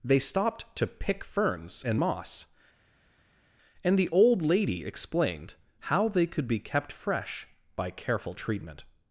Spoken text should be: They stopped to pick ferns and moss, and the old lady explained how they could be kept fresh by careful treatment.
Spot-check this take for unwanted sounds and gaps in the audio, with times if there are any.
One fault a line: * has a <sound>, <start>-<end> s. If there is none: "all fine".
all fine